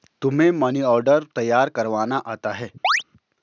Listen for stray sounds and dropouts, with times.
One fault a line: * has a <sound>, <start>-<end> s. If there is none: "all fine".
* has a chirp, 2.8-3.0 s